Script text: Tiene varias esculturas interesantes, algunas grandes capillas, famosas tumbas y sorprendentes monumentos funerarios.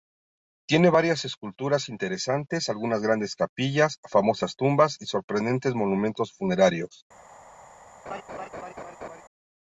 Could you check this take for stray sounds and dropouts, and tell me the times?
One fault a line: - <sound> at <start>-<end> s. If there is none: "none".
- laugh at 8.1-9.2 s